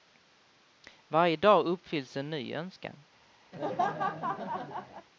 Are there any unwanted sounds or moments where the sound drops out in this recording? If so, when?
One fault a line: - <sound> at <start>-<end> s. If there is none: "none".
- laugh at 3.5-5.1 s